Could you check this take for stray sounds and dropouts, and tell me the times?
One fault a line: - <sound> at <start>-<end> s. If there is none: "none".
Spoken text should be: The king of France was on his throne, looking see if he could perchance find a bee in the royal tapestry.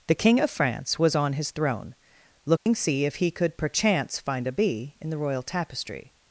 - dropout at 2.6-2.7 s